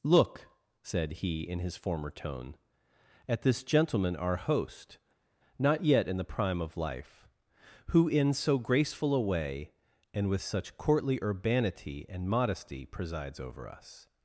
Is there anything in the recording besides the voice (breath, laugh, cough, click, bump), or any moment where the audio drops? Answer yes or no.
no